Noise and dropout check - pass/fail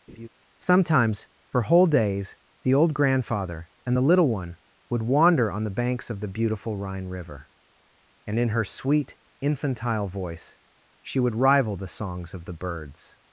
fail